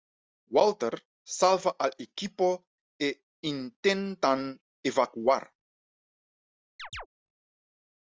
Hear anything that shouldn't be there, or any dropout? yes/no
yes